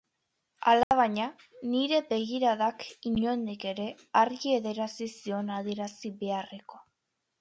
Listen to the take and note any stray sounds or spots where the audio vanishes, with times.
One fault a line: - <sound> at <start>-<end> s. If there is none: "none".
- dropout at 0.8-0.9 s